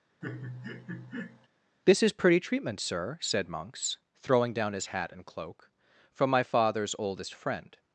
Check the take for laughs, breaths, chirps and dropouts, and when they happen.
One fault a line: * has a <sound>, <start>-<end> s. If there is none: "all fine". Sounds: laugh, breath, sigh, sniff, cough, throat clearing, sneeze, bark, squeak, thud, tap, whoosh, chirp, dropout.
* has a laugh, 0.2-1.5 s